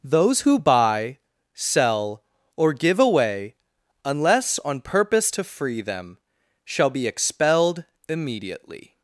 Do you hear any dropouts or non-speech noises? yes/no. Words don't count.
no